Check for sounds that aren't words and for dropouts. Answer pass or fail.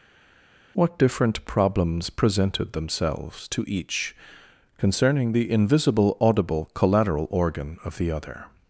pass